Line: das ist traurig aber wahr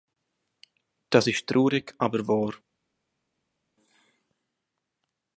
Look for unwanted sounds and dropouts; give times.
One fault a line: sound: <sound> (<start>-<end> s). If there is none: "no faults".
no faults